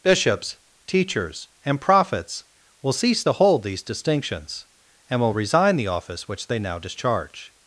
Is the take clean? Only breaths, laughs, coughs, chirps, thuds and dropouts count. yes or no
yes